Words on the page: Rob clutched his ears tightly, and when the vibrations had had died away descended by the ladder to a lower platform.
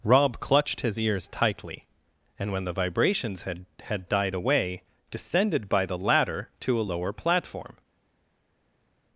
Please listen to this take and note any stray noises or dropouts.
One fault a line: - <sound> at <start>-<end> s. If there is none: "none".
none